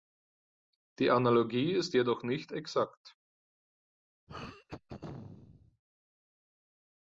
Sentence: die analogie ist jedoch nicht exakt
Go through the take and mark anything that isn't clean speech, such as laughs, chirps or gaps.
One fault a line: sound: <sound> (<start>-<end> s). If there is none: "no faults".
sound: throat clearing (4.3-5.8 s)